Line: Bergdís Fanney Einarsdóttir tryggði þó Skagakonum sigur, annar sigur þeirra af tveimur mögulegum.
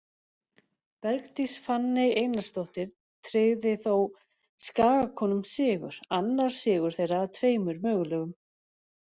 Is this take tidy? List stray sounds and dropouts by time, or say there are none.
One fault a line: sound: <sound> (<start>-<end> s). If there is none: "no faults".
no faults